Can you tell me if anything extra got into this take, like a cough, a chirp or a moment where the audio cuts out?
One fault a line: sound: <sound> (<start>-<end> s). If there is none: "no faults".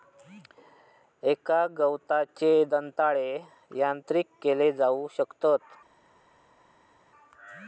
no faults